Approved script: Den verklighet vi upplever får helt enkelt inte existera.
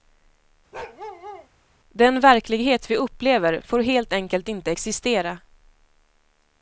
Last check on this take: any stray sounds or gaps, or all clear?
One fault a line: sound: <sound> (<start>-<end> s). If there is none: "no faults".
sound: bark (0.7-1.5 s)